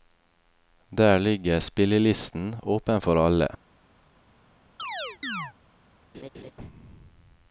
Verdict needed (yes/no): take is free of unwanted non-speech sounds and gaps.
no